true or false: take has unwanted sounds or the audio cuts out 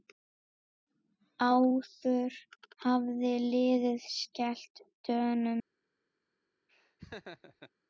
true